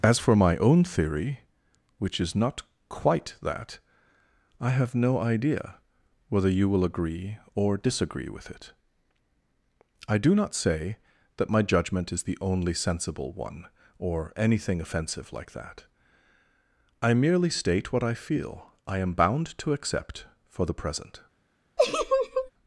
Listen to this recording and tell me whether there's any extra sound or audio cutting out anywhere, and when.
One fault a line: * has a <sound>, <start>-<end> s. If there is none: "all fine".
* has a laugh, 21.8-22.5 s